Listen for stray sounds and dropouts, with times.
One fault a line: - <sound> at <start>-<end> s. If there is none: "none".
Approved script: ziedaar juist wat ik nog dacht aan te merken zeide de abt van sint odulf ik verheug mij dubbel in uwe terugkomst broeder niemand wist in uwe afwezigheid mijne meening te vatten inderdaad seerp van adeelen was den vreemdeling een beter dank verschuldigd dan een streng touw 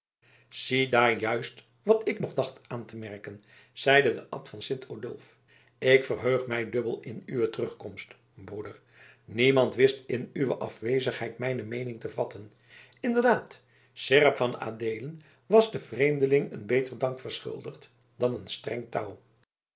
none